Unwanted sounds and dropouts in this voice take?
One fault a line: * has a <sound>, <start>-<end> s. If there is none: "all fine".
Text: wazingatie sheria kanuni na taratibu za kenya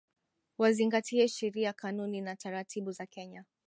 all fine